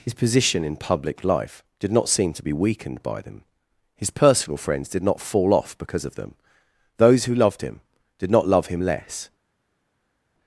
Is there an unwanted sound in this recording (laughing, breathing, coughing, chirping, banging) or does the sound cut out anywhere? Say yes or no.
no